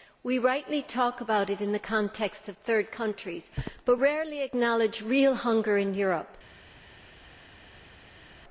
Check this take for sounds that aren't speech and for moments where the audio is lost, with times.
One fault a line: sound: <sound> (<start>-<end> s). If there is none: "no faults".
no faults